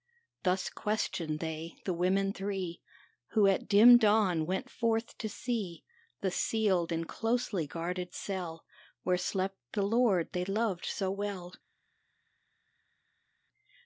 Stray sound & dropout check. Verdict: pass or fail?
pass